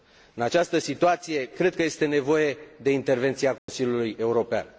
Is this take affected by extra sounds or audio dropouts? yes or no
yes